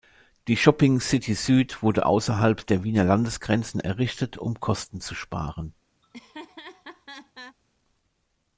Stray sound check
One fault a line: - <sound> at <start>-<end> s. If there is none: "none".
- laugh at 6.0-7.6 s